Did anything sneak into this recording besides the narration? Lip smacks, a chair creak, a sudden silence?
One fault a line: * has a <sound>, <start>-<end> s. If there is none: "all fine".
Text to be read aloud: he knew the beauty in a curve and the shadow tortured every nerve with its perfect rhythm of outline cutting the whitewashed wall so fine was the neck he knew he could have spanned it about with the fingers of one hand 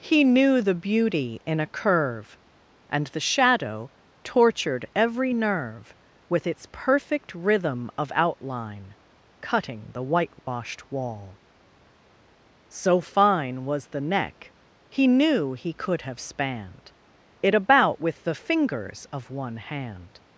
* has a dropout, 10.4-10.5 s